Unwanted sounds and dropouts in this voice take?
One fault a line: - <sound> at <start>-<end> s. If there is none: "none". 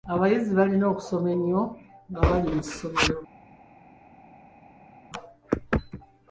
none